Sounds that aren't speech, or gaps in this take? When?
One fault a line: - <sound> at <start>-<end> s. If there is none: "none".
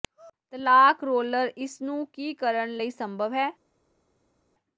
none